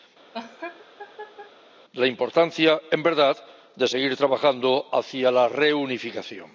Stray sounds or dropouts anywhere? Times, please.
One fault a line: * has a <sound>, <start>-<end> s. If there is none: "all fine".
* has a laugh, 0.3-1.5 s